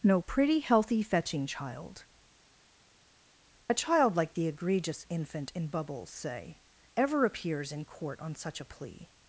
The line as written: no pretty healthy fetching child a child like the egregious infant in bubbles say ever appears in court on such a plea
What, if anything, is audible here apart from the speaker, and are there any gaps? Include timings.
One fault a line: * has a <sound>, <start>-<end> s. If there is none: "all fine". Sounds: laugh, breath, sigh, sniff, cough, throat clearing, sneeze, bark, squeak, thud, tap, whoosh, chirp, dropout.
all fine